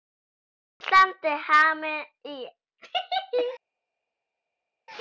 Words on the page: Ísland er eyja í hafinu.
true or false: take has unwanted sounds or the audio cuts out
false